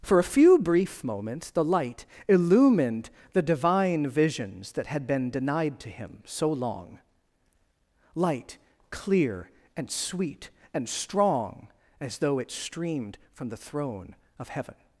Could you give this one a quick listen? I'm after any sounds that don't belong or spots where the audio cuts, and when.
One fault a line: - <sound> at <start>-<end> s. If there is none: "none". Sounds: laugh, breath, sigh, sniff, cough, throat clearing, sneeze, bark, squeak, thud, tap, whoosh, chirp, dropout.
none